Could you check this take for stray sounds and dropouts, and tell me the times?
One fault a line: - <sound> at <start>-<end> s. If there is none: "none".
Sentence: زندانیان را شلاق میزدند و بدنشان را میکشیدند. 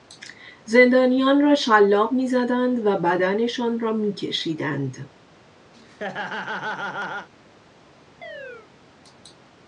- laugh at 5.7-7.3 s
- chirp at 8.2-8.7 s